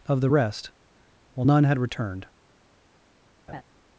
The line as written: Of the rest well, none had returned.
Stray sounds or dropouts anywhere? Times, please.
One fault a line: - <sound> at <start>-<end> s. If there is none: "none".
- laugh at 3.5-3.6 s